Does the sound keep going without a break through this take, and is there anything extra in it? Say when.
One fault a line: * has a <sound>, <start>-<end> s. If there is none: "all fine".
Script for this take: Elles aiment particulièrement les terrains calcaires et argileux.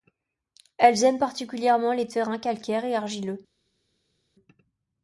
all fine